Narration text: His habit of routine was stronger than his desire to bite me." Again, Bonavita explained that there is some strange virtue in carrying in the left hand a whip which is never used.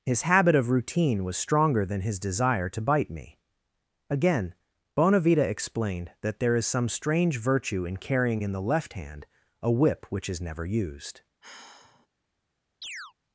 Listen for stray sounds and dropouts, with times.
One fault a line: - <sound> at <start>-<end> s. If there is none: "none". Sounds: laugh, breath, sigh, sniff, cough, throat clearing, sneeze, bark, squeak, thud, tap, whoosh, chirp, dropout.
- sigh at 11.4-12.1 s
- chirp at 12.8-13.1 s